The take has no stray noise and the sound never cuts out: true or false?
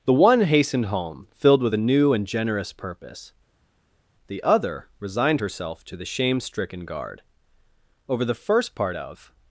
true